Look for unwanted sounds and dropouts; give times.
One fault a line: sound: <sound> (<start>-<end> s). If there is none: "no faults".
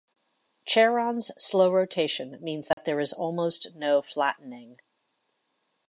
sound: dropout (2.7-2.8 s)